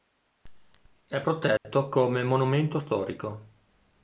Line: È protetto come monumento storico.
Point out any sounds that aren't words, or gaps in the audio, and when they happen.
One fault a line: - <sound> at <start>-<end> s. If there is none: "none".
- dropout at 1.6-1.7 s